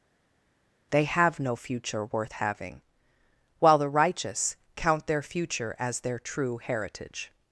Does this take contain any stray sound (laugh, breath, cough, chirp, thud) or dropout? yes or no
no